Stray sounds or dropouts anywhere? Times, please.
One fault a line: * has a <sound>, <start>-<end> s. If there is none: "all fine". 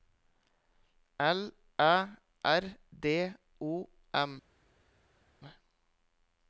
all fine